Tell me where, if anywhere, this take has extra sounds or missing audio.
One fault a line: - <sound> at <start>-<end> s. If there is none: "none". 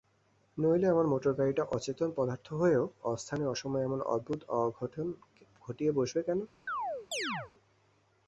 - chirp at 6.7-7.5 s